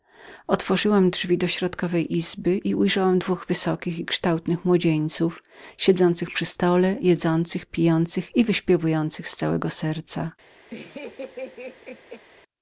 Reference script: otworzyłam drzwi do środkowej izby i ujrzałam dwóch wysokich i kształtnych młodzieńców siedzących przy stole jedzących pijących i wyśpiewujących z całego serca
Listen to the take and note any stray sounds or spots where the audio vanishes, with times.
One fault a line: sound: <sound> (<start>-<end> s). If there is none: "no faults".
sound: laugh (10.7-12.2 s)